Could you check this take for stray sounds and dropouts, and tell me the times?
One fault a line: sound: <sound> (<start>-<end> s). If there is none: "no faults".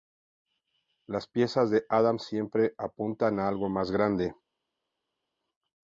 no faults